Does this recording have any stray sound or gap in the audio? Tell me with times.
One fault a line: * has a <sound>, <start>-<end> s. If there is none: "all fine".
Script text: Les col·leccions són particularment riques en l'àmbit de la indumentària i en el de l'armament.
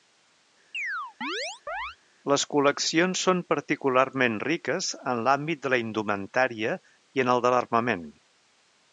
* has a chirp, 0.7-2.0 s